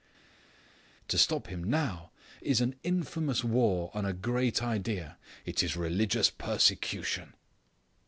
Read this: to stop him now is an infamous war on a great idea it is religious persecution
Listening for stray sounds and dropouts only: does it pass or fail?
pass